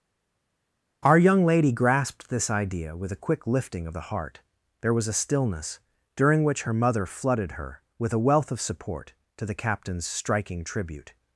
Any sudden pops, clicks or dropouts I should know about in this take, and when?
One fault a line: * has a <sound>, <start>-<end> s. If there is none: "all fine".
all fine